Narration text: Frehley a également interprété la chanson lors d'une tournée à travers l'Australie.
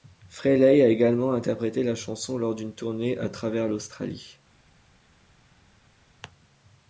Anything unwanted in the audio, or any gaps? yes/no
no